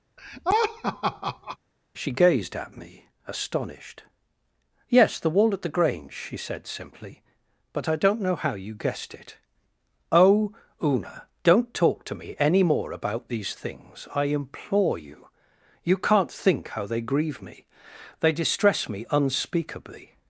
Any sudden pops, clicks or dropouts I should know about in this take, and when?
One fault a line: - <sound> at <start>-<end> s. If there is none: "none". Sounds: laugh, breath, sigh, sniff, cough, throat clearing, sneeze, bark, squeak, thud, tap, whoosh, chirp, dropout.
- laugh at 0.2-1.6 s